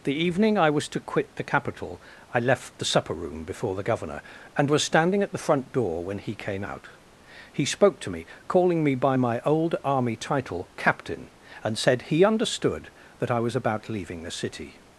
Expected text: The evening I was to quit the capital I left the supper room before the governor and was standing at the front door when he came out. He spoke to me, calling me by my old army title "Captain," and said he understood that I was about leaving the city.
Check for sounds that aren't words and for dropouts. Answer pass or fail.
pass